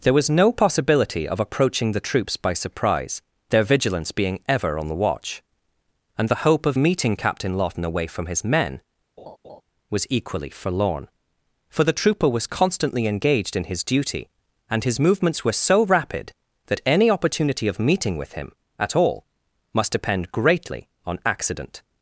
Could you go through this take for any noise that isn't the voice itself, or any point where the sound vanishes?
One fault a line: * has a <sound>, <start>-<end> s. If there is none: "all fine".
* has a laugh, 9.2-9.6 s